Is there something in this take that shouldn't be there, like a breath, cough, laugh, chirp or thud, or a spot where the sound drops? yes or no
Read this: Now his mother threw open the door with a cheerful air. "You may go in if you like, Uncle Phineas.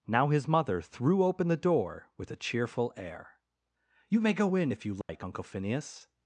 yes